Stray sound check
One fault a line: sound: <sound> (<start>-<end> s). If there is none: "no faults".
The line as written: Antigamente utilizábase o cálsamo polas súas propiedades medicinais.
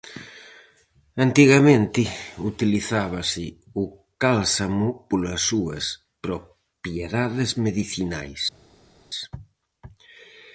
no faults